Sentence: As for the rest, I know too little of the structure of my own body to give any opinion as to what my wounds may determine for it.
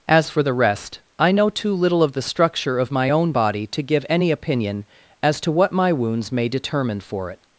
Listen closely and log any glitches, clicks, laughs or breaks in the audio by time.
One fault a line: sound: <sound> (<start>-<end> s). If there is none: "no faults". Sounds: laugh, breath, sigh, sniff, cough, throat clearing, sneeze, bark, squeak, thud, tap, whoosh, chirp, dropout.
no faults